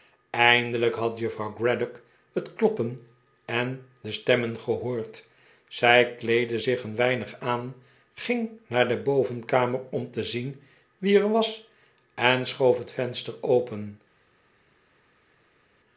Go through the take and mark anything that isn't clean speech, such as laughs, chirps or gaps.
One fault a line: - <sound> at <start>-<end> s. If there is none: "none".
none